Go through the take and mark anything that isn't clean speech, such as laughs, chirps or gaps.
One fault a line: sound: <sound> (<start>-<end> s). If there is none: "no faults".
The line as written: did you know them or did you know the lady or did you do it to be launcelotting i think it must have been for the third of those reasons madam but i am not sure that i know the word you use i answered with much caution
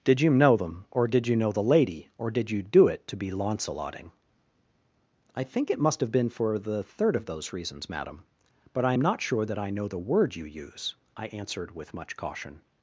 no faults